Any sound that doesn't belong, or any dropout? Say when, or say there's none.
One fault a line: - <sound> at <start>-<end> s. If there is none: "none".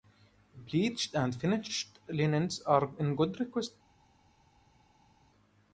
none